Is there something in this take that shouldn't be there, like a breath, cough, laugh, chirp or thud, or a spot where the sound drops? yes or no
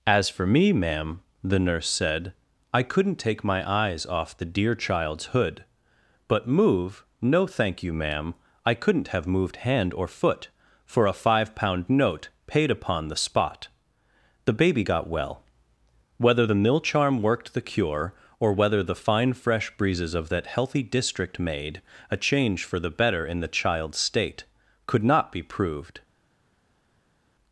no